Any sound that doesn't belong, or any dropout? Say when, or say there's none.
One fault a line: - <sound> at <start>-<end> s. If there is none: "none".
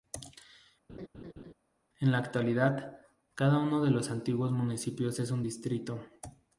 - laugh at 0.9-1.5 s